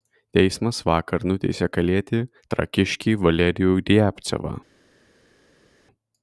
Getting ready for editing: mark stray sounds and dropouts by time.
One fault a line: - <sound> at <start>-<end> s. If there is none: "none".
none